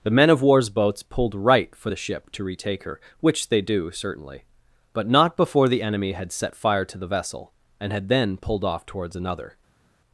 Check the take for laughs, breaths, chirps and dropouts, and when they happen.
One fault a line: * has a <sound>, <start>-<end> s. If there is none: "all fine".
all fine